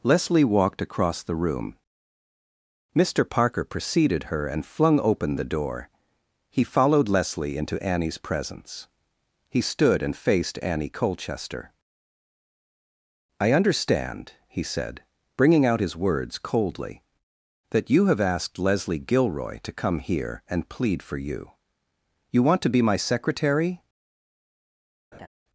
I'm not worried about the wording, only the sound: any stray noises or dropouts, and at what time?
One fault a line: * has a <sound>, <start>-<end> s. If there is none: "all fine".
* has a laugh, 25.1-25.3 s